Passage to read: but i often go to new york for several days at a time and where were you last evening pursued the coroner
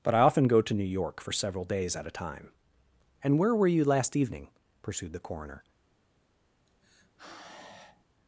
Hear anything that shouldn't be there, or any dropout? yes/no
yes